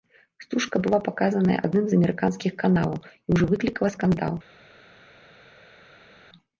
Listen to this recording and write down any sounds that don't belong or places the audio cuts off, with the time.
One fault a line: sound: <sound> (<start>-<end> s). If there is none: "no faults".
no faults